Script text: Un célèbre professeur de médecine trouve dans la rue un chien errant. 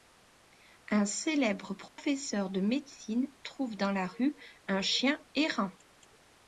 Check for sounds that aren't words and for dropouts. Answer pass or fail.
fail